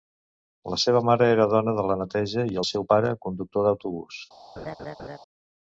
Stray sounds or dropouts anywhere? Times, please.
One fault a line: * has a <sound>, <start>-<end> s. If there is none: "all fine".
* has a laugh, 4.6-5.2 s